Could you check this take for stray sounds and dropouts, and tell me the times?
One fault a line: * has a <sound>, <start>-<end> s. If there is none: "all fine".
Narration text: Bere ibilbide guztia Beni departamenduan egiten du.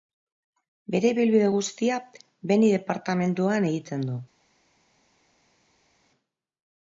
all fine